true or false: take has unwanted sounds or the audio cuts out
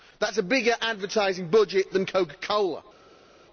false